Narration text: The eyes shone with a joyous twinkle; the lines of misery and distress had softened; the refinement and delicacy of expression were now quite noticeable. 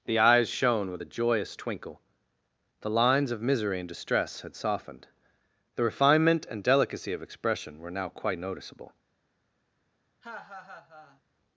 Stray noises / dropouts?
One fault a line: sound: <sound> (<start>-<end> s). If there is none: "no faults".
sound: laugh (10.2-11.2 s)